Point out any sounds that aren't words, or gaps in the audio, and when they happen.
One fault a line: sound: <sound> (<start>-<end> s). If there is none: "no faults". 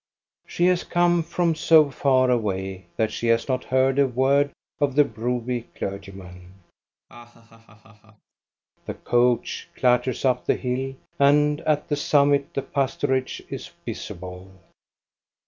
sound: laugh (7.1-8.3 s)